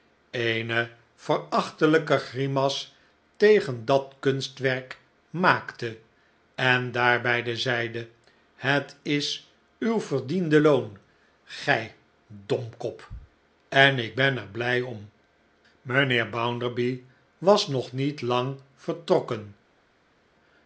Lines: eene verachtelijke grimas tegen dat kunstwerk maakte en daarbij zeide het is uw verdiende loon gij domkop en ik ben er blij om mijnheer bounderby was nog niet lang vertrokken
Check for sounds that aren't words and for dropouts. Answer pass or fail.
pass